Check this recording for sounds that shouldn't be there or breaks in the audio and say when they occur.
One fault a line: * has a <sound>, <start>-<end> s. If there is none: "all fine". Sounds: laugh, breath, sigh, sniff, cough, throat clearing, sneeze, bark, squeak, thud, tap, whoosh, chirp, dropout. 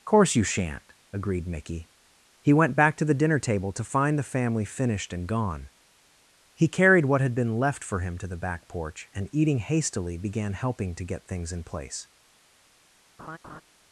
* has a laugh, 13.2-13.6 s